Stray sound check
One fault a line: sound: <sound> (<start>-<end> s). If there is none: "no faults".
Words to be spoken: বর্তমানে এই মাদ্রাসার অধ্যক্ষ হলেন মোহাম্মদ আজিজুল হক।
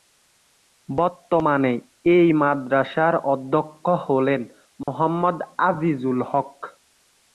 sound: dropout (4.8-4.9 s)